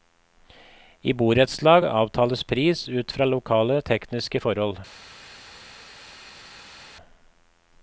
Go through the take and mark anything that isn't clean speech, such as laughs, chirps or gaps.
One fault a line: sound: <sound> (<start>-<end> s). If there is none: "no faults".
no faults